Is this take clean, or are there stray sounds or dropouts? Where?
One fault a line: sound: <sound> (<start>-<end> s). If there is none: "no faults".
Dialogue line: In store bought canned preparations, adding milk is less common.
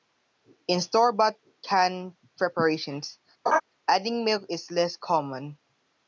sound: laugh (3.5-3.6 s)